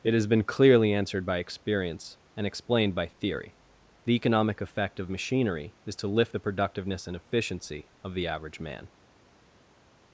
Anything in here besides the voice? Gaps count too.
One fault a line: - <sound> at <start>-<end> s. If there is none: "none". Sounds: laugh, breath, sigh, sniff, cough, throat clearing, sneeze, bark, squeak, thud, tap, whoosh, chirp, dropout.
none